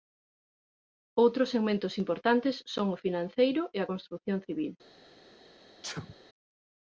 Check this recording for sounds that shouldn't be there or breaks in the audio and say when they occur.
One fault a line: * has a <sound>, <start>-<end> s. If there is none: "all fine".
* has a sneeze, 5.8-6.2 s